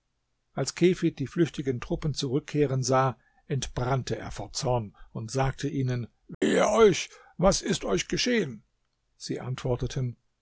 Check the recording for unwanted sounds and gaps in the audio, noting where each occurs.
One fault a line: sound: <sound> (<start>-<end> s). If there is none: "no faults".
sound: dropout (6.3-6.4 s)